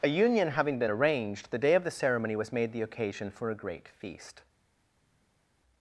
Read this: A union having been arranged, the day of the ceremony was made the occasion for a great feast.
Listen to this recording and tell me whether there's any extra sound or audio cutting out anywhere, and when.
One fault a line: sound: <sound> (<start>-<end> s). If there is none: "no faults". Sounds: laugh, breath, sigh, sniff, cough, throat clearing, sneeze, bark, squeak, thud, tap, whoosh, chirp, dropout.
no faults